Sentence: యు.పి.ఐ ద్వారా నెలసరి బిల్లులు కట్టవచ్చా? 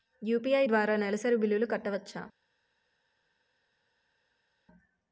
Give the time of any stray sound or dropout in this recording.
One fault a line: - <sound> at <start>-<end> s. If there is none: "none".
none